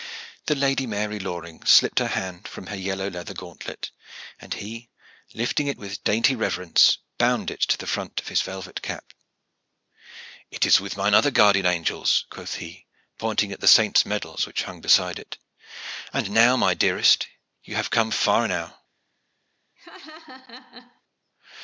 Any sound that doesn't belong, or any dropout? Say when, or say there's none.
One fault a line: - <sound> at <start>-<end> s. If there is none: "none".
- laugh at 19.8-21.0 s